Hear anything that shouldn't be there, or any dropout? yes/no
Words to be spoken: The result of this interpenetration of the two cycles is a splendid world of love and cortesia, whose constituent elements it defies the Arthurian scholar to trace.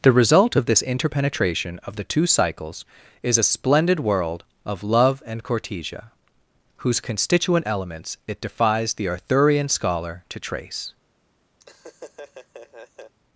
yes